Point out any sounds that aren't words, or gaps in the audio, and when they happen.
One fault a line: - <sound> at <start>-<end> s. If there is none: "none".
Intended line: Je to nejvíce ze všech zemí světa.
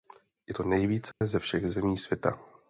- dropout at 1.1-1.2 s